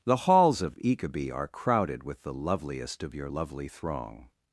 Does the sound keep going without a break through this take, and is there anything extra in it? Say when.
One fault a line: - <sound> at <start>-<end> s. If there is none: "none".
none